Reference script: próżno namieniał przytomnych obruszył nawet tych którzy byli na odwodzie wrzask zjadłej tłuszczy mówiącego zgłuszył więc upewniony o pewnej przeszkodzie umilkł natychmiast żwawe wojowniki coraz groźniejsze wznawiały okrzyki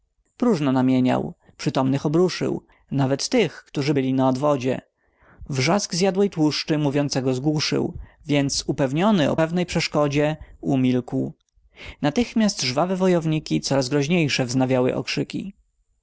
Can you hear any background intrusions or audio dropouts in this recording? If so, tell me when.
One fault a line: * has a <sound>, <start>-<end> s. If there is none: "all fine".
all fine